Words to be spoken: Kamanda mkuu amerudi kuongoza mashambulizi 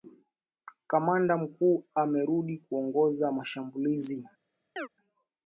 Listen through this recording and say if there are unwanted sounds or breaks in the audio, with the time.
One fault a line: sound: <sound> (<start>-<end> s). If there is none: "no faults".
sound: chirp (4.8-4.9 s)